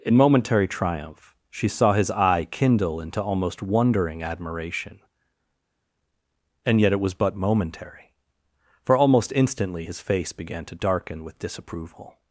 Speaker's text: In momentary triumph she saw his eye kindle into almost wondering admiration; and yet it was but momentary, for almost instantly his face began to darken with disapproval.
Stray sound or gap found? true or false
false